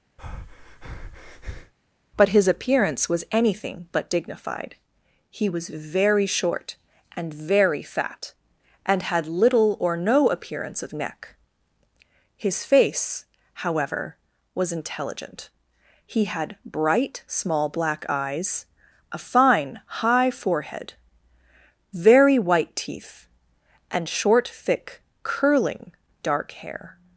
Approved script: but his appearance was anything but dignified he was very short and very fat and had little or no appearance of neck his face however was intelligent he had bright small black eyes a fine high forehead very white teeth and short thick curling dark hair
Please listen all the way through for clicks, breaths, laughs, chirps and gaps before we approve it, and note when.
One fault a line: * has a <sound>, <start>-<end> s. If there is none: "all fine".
* has a breath, 0.2-1.7 s